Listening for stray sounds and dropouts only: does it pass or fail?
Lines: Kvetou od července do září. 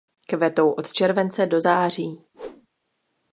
fail